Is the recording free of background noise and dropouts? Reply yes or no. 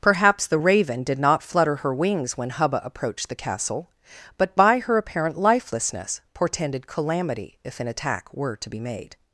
yes